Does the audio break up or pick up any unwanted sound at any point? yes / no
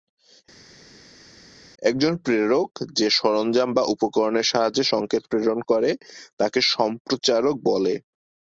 no